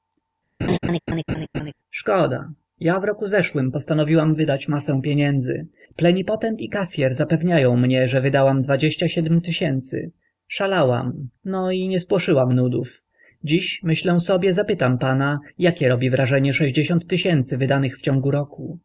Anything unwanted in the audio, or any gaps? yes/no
yes